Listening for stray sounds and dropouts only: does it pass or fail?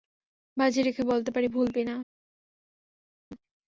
pass